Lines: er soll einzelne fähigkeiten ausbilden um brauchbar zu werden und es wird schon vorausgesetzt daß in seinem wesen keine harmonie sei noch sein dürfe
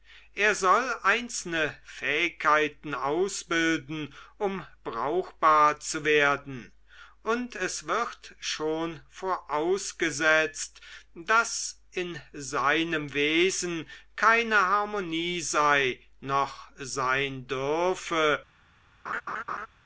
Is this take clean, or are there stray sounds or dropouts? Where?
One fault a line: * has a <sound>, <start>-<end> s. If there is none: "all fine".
* has a laugh, 19.1-19.7 s